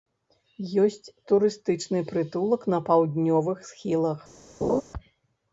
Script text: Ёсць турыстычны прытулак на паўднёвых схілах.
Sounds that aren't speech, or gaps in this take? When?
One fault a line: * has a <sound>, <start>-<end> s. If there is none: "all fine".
* has a laugh, 4.6-4.8 s